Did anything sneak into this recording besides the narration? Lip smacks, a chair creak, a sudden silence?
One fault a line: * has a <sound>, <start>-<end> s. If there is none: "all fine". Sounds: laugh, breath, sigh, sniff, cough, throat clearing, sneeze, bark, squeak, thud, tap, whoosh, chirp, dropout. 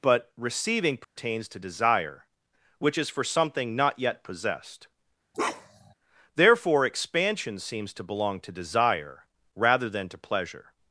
* has a dropout, 1.0-1.2 s
* has a bark, 5.3-5.9 s